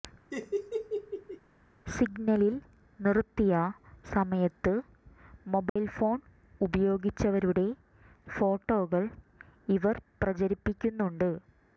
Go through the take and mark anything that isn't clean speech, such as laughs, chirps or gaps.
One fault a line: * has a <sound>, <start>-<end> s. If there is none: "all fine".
* has a laugh, 0.3-1.4 s
* has a dropout, 5.7-5.8 s